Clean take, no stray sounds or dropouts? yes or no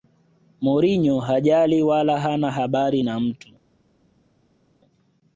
yes